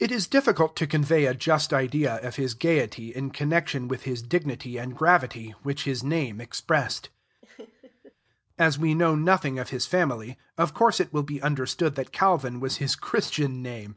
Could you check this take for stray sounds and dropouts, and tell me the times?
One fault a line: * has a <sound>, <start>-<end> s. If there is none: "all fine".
* has a laugh, 7.4-8.1 s